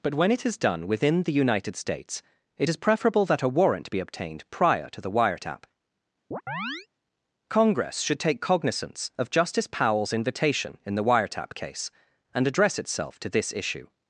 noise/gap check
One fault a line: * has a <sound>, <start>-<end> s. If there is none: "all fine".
* has a chirp, 6.3-6.9 s